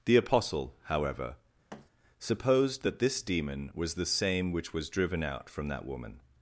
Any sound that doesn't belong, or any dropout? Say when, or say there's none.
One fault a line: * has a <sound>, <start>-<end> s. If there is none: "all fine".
* has a thud, 1.7-1.9 s